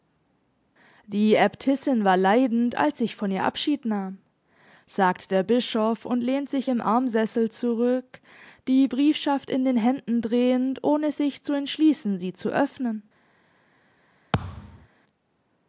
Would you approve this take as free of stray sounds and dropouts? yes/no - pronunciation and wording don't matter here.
no